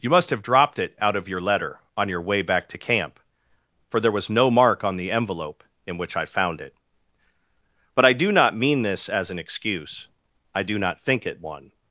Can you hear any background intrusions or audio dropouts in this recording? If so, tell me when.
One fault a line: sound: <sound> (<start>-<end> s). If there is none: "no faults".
no faults